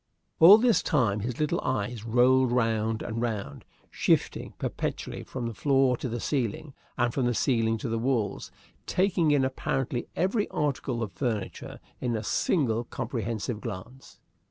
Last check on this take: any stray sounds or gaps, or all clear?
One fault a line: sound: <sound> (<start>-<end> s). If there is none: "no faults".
no faults